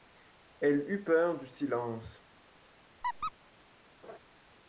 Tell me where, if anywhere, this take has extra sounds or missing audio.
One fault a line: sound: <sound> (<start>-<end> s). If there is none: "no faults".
sound: squeak (3.0-3.3 s)
sound: laugh (4.0-4.2 s)